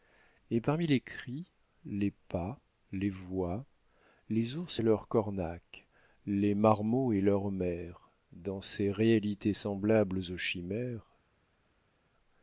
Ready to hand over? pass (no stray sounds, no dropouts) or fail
pass